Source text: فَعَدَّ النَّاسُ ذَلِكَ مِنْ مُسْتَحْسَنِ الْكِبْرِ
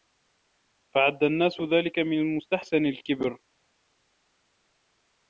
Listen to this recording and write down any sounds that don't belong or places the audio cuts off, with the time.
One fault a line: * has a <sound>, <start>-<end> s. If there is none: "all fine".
all fine